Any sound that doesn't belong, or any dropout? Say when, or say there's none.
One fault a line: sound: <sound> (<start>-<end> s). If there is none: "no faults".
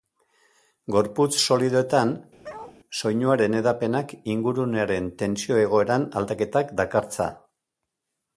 sound: bark (2.4-2.8 s)